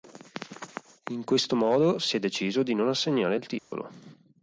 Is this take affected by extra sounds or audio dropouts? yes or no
yes